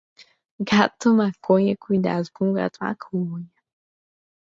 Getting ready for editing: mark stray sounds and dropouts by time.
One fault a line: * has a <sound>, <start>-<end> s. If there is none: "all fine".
all fine